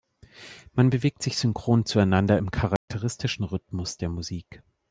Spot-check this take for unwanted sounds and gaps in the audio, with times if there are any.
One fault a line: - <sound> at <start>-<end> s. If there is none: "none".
- dropout at 2.8-2.9 s